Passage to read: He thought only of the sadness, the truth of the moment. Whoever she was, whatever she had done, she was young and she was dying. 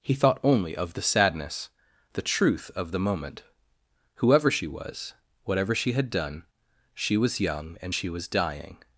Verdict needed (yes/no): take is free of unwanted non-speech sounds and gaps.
yes